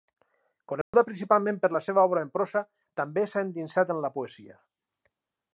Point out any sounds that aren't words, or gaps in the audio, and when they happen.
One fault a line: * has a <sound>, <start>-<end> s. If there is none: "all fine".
* has a dropout, 0.8-0.9 s